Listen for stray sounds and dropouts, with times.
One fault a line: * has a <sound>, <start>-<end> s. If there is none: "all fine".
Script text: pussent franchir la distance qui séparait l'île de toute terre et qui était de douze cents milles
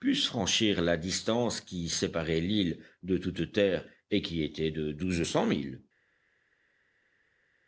all fine